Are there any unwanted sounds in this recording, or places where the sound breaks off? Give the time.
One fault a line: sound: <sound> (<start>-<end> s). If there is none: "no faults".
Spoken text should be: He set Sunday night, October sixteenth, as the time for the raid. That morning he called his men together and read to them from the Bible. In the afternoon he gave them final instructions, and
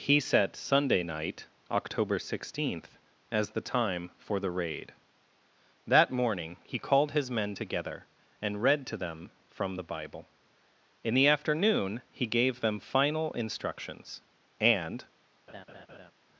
sound: laugh (15.5-16.1 s)